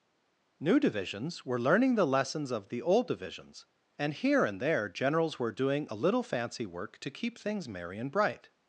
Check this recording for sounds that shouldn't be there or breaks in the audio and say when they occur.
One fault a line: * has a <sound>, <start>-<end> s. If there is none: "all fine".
all fine